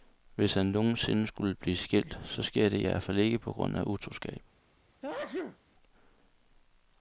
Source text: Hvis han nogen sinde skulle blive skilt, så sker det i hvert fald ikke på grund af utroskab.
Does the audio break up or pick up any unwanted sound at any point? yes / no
yes